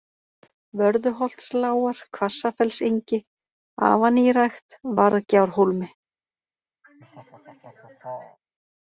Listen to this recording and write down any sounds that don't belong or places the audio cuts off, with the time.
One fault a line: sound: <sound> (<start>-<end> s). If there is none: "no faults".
sound: laugh (6.8-8.4 s)